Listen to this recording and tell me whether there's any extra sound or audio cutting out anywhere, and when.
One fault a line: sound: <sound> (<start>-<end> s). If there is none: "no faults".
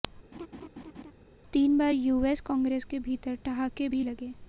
sound: laugh (0.3-1.1 s)